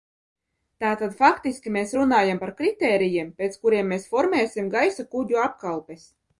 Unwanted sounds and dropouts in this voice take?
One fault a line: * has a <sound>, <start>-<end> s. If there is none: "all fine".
all fine